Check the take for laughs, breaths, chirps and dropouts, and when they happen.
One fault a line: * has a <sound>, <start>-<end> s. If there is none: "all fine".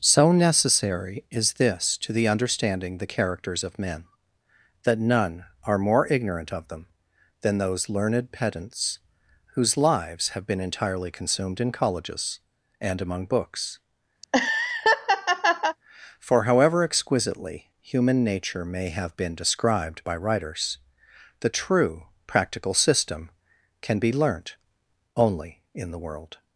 * has a laugh, 14.2-15.8 s